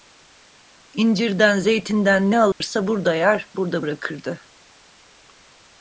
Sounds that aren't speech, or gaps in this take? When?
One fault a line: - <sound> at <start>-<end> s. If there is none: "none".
- dropout at 2.5-2.6 s